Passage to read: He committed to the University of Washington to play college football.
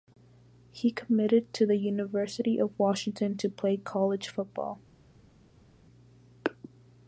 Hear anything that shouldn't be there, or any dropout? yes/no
no